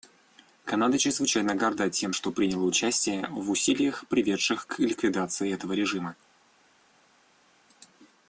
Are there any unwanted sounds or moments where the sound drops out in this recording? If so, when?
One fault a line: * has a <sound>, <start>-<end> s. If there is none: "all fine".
all fine